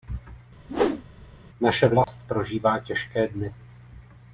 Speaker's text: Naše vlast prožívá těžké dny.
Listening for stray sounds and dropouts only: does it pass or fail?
fail